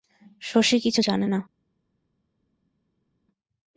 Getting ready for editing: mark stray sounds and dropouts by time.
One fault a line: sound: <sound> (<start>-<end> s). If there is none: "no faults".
no faults